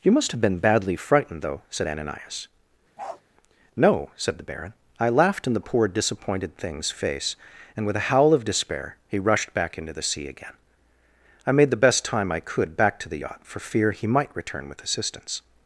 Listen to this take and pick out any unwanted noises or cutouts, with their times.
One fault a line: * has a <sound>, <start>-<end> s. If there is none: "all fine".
* has a bark, 3.0-3.2 s